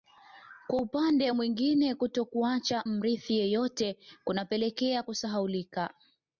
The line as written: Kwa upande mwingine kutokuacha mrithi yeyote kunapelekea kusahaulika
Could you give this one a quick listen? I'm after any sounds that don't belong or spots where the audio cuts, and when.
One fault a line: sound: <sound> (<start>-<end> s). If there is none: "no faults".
no faults